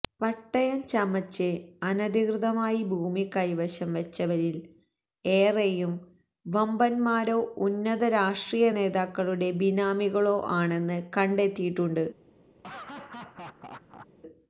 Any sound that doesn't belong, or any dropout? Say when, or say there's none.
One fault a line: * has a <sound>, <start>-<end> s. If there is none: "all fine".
* has a laugh, 12.6-14.1 s